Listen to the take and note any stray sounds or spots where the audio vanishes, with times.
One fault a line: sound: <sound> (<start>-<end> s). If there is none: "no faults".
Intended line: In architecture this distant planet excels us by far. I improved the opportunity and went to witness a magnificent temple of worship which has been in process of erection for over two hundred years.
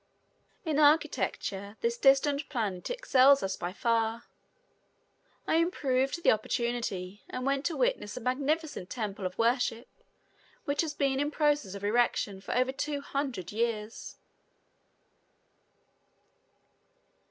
no faults